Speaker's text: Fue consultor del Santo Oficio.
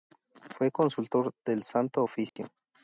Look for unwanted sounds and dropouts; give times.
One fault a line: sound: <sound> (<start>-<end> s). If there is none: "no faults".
sound: dropout (2.3-2.4 s)